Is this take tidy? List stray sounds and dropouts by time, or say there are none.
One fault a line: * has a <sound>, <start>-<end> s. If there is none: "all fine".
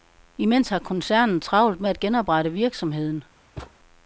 * has a thud, 3.6-3.7 s